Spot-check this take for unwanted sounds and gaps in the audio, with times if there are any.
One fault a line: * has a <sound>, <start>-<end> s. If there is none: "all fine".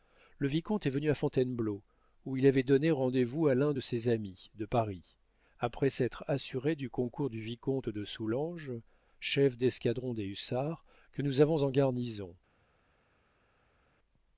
all fine